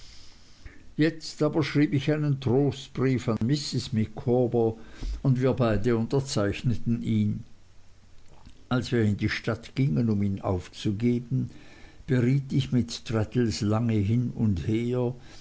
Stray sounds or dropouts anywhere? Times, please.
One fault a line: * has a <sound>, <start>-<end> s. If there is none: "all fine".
* has a dropout, 3.4-3.4 s